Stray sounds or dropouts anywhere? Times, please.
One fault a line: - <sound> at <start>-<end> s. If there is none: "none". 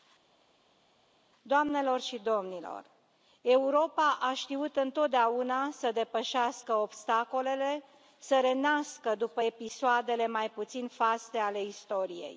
none